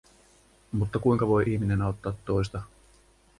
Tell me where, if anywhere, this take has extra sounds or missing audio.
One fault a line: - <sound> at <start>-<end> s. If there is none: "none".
none